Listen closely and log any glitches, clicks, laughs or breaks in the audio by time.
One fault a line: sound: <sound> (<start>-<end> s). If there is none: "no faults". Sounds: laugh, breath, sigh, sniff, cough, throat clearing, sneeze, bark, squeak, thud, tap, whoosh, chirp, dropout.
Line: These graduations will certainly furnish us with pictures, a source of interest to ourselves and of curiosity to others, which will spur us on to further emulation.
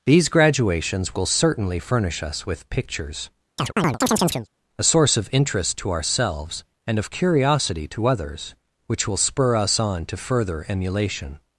sound: chirp (3.6-4.5 s)